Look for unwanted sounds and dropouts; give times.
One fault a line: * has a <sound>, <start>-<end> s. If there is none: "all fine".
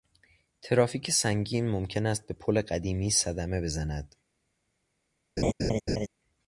* has a laugh, 5.4-6.1 s